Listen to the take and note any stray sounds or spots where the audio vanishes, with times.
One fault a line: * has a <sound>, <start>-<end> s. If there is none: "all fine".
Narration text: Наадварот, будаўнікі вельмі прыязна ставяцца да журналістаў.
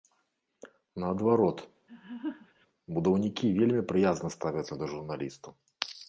* has a laugh, 1.9-2.7 s